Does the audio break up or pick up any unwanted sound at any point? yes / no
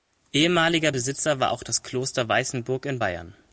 no